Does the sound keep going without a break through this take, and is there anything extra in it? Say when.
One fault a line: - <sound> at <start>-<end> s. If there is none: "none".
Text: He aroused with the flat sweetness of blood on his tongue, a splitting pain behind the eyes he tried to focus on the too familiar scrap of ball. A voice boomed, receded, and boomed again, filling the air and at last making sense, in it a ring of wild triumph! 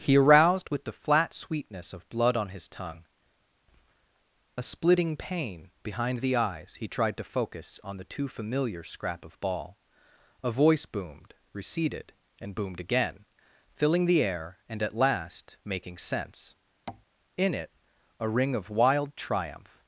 - tap at 16.9-17.1 s